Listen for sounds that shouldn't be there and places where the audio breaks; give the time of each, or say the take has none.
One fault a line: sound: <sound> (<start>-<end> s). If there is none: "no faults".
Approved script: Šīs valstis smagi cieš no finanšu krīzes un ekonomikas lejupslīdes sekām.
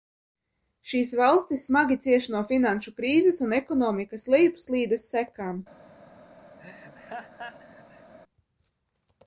sound: laugh (6.6-8.1 s)